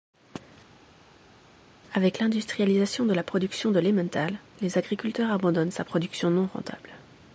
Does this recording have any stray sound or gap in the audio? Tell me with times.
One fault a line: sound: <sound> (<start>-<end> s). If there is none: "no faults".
no faults